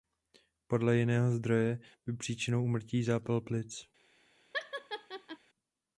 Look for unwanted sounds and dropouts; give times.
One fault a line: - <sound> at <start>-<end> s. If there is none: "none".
- laugh at 4.5-5.4 s